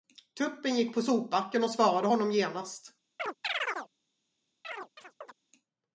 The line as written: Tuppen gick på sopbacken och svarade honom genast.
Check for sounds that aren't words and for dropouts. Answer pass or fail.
fail